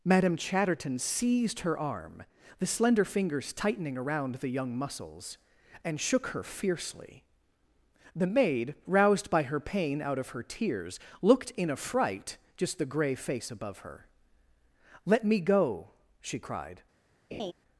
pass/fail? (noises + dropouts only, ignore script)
fail